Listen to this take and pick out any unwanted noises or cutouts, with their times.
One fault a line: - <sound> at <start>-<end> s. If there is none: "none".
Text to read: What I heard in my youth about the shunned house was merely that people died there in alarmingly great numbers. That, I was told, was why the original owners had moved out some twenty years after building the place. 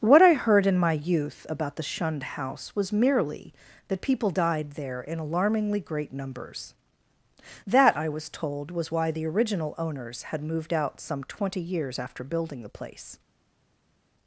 none